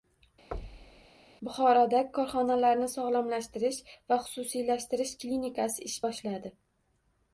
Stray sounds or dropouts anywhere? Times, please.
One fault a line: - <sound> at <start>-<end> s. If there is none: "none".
- thud at 0.5-1.1 s